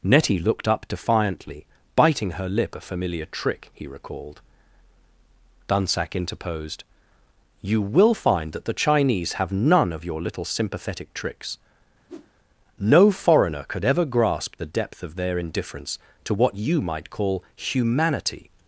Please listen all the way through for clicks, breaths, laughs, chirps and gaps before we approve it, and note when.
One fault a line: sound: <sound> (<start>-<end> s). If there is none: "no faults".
sound: whoosh (12.1-12.3 s)